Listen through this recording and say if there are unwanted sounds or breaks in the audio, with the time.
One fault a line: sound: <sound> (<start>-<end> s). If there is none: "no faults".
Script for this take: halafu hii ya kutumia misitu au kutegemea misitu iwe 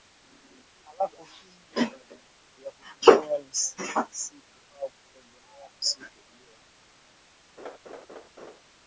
sound: laugh (7.6-8.6 s)